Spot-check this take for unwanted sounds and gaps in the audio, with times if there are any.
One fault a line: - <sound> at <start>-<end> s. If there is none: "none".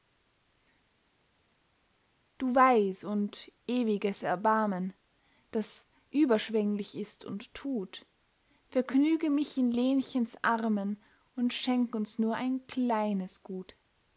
none